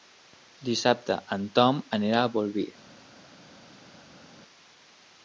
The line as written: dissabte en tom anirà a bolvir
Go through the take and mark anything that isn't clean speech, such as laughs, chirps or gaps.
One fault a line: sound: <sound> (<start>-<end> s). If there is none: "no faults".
no faults